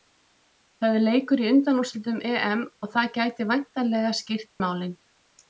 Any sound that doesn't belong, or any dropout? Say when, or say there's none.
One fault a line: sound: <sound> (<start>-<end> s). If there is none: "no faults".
sound: dropout (4.5-4.6 s)